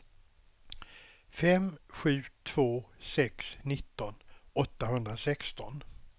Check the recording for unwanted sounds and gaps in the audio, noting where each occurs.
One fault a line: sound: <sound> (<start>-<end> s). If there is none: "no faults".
no faults